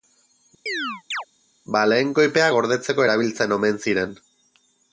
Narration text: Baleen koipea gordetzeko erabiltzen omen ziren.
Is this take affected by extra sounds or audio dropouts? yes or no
yes